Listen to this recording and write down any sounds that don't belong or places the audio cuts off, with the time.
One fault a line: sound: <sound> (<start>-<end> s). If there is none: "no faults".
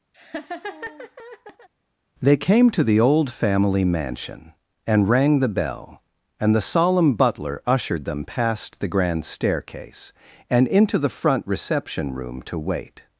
sound: laugh (0.1-1.7 s)